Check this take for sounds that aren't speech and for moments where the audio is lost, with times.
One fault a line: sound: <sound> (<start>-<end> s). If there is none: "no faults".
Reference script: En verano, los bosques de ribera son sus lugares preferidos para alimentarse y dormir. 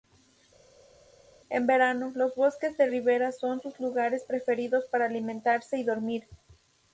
no faults